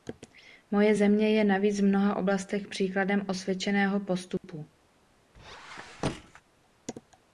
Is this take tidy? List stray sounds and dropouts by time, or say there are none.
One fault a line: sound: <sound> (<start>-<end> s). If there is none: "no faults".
sound: dropout (4.4-4.4 s)
sound: squeak (5.3-6.4 s)